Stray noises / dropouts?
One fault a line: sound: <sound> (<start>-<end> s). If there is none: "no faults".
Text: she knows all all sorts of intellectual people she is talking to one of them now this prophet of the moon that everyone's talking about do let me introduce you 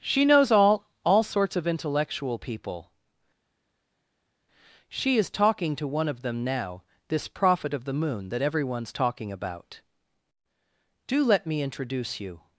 no faults